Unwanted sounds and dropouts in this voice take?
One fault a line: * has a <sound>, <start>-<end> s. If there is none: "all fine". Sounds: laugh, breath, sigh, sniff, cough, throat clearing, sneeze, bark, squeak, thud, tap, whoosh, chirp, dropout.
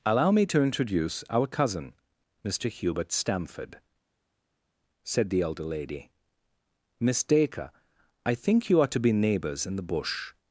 all fine